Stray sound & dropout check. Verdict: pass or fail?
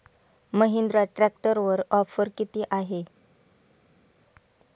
pass